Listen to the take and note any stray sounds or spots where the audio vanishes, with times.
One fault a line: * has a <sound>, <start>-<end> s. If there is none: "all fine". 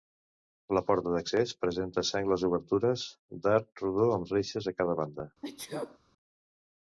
* has a sneeze, 5.4-6.0 s